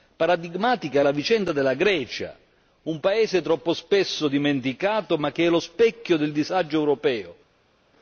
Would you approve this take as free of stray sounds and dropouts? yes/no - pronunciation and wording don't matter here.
yes